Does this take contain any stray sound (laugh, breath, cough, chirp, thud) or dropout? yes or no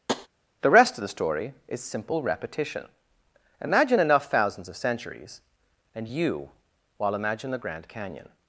yes